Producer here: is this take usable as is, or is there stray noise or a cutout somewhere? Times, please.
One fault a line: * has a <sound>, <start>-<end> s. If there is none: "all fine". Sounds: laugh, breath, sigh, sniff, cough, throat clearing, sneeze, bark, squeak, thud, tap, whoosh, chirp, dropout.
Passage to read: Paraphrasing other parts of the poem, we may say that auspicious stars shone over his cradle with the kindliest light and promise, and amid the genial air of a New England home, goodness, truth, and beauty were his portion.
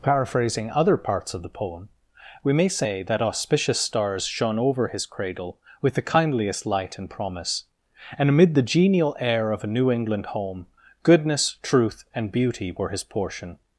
all fine